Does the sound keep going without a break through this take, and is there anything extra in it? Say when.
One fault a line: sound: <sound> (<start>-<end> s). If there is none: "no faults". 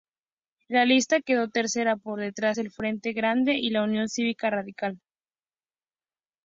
no faults